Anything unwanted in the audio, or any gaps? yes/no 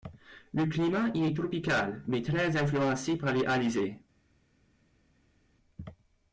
no